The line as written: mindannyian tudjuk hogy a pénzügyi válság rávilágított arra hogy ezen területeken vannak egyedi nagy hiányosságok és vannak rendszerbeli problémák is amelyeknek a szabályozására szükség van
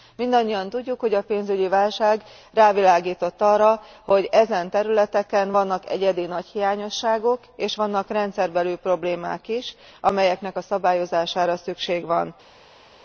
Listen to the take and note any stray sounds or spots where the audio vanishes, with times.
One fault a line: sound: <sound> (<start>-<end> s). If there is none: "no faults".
no faults